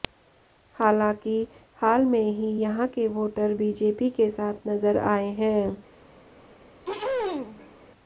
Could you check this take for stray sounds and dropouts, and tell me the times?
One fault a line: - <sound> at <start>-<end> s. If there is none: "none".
- throat clearing at 6.8-7.8 s